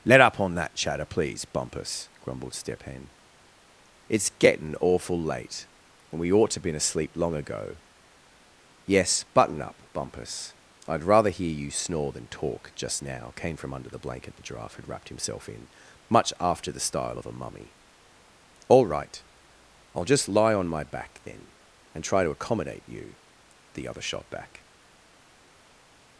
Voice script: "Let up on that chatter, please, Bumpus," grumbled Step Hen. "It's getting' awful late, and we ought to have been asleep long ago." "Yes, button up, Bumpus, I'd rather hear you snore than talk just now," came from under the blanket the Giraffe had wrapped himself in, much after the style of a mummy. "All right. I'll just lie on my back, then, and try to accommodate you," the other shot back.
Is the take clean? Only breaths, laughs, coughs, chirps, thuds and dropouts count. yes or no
yes